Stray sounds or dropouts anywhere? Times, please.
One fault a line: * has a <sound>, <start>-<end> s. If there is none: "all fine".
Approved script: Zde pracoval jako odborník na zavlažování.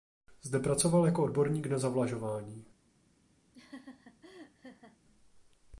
* has a laugh, 3.5-5.0 s